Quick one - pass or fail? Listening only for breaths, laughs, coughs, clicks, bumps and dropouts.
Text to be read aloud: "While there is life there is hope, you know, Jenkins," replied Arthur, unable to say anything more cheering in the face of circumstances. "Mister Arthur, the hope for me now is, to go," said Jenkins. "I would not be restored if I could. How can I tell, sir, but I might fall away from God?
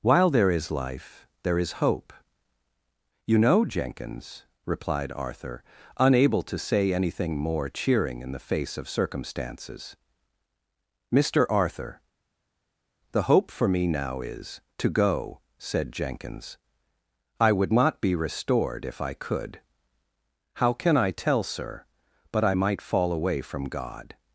pass